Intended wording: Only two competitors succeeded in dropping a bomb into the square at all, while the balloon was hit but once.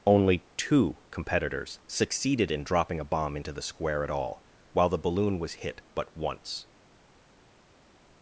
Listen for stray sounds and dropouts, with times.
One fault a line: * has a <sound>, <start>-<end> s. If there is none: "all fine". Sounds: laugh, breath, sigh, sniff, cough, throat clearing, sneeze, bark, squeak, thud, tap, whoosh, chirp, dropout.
all fine